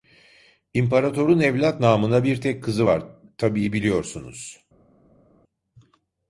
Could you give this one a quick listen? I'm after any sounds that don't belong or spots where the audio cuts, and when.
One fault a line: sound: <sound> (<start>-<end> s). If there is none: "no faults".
no faults